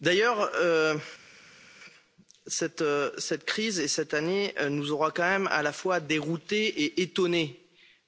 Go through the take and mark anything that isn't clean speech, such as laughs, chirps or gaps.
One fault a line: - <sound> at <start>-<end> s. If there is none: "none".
none